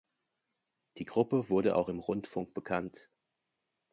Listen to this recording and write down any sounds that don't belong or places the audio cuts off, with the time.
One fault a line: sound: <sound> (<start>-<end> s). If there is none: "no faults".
no faults